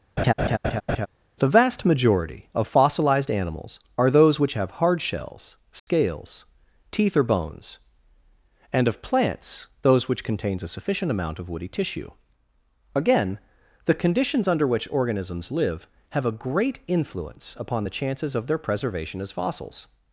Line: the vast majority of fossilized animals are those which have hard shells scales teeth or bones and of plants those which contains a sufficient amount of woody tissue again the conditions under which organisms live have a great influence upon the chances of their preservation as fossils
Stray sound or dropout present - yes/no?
yes